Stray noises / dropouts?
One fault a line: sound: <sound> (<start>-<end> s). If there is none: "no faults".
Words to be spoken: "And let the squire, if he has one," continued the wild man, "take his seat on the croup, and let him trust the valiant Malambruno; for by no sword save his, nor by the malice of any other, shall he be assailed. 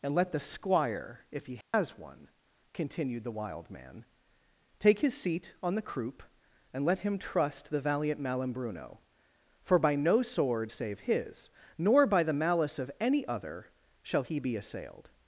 sound: dropout (1.6-1.7 s)